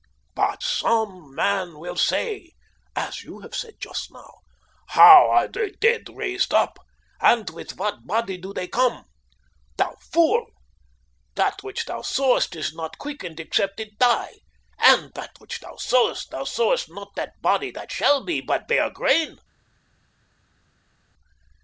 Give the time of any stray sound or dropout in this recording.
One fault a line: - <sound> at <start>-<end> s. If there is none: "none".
none